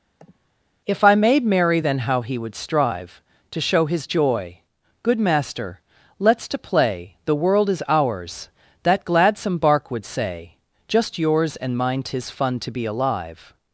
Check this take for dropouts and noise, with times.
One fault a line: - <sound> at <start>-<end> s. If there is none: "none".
- sniff at 0.2-0.5 s